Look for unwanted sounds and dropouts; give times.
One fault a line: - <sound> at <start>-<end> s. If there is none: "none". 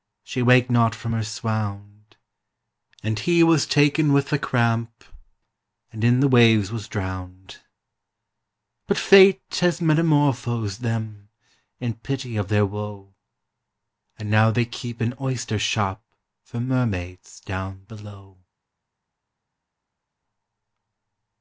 none